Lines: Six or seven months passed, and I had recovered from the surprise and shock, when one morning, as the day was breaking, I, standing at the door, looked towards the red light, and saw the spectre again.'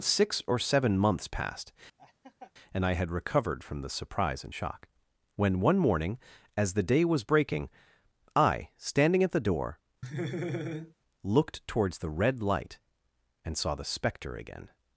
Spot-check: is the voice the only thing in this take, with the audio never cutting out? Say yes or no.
no